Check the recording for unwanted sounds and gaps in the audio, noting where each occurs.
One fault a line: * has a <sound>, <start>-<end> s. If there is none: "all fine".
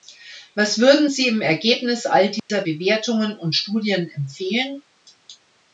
* has a dropout, 2.4-2.5 s